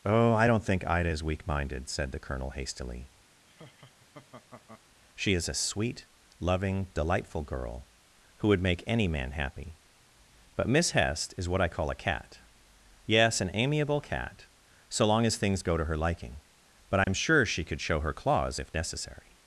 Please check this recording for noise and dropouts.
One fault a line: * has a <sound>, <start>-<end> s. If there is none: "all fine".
* has a laugh, 3.5-4.8 s
* has a dropout, 17.0-17.1 s